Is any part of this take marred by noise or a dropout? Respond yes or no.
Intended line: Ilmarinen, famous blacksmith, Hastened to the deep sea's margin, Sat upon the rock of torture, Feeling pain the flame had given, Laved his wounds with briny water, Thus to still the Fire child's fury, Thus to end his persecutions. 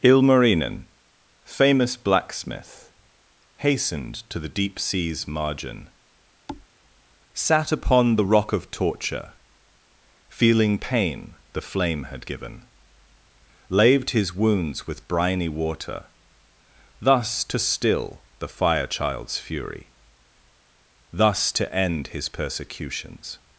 yes